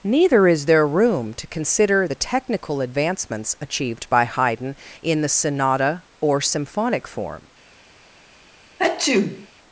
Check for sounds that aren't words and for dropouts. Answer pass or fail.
fail